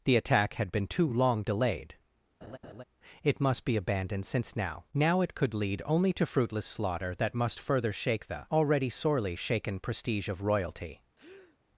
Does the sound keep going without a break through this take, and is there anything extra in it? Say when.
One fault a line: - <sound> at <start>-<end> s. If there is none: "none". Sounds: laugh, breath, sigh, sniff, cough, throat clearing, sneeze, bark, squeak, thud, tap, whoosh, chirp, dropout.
- laugh at 2.4-2.8 s
- breath at 11.2-11.6 s